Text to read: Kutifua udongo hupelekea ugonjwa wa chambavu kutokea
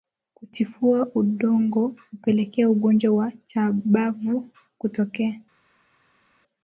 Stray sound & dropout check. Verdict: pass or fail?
pass